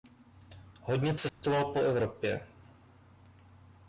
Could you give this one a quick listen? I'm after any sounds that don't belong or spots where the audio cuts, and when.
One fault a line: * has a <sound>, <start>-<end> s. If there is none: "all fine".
* has a dropout, 1.3-1.4 s